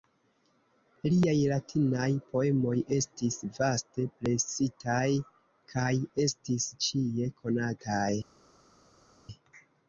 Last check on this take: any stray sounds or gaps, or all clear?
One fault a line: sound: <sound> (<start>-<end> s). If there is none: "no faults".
no faults